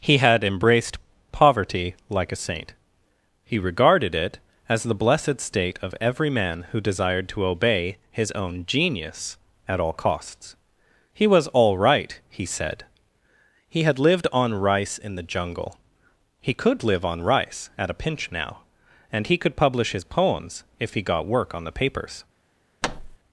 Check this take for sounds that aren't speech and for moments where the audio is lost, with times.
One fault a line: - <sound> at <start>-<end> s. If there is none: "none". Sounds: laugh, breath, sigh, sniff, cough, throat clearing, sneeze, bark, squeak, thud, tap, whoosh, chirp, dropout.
- thud at 22.8-23.2 s